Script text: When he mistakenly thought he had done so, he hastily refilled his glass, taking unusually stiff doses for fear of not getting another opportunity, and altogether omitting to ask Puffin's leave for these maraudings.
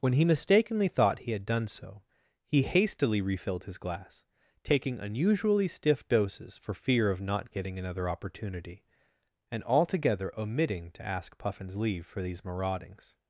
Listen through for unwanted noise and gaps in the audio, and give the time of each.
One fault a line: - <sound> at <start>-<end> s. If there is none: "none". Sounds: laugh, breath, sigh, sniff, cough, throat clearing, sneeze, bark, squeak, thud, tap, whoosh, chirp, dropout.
none